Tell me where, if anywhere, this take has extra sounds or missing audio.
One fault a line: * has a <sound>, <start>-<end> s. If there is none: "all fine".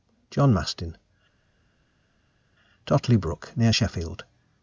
all fine